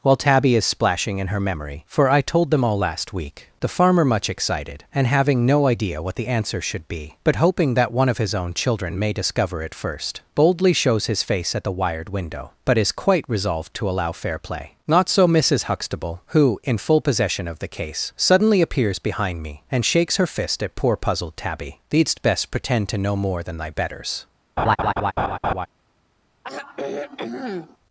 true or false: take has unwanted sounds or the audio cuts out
true